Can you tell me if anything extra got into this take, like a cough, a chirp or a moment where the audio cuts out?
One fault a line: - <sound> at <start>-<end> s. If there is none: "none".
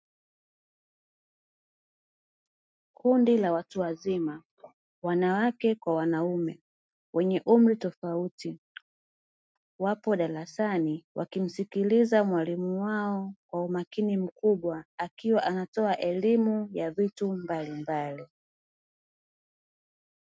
none